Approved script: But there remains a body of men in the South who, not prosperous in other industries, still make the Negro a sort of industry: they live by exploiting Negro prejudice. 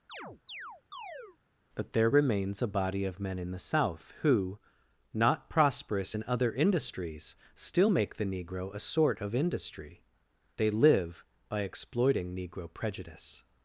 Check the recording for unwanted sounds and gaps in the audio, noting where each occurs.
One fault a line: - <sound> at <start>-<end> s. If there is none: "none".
- chirp at 0.1-1.4 s